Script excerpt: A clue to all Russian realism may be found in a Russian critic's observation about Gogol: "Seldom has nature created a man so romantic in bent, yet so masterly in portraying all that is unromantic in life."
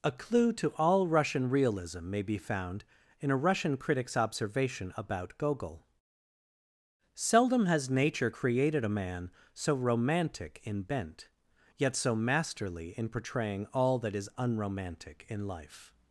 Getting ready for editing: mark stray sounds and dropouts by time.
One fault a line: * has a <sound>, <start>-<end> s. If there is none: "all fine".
all fine